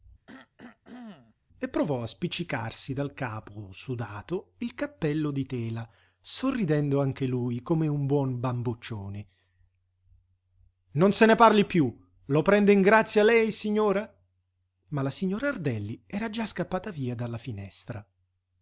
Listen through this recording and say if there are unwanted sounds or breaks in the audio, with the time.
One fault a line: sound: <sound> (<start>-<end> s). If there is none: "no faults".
sound: cough (0.3-1.4 s)